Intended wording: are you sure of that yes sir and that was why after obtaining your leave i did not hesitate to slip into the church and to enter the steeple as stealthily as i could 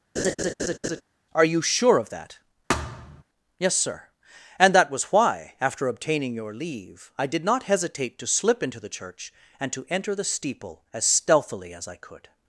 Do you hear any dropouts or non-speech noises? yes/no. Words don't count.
yes